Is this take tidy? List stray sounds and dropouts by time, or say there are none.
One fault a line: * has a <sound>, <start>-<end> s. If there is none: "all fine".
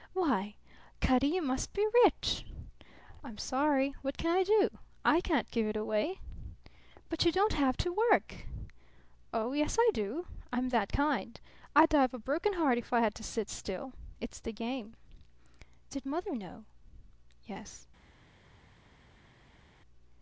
all fine